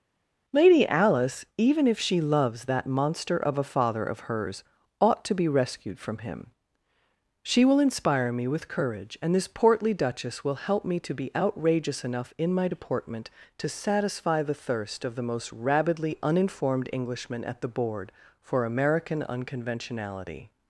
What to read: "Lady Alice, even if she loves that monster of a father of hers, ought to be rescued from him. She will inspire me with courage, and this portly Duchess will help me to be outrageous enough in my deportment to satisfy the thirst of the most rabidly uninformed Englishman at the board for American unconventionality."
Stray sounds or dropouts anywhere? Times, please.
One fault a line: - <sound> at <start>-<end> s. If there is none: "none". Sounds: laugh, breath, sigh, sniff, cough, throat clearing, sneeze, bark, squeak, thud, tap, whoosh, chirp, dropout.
none